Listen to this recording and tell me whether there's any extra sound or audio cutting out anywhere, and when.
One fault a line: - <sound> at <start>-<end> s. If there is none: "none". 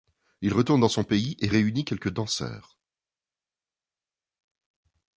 none